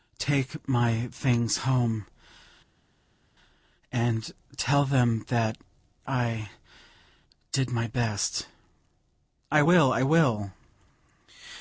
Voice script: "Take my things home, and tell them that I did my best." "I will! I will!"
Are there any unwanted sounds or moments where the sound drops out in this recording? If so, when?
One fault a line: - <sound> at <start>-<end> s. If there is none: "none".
none